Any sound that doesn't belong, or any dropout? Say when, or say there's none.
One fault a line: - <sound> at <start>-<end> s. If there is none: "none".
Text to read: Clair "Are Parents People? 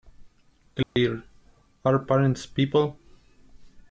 - dropout at 0.8-1.0 s